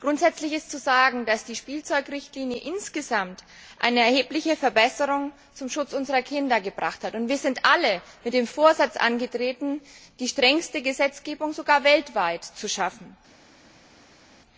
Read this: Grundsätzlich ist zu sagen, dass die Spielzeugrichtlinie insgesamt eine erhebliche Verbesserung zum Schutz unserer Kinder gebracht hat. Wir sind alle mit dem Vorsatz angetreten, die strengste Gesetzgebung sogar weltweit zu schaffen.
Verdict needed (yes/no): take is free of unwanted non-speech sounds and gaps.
yes